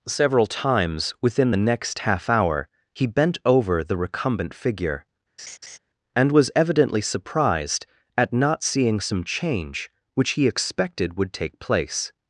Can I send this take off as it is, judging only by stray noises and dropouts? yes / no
no